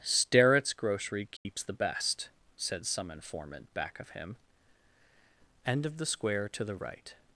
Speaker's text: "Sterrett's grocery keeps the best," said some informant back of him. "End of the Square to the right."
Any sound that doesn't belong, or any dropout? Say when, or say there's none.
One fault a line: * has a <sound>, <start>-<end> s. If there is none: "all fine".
* has a dropout, 1.4-1.5 s